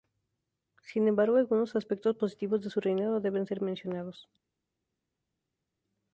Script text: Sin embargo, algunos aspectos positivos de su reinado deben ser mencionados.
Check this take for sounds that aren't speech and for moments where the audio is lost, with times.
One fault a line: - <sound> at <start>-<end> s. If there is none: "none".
none